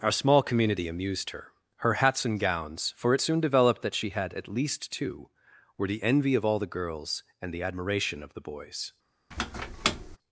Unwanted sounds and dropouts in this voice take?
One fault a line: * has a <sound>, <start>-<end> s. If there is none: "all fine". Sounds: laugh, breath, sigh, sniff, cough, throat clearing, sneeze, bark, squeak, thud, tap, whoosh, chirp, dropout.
* has a squeak, 9.3-10.2 s